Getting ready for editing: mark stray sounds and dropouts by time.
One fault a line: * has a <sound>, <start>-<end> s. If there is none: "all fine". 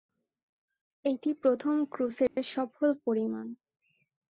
* has a dropout, 2.3-2.4 s